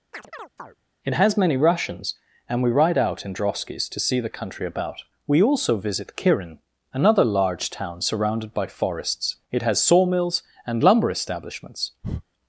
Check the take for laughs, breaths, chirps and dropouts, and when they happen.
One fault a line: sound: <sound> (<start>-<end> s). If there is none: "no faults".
sound: chirp (0.1-0.8 s)
sound: breath (12.0-12.2 s)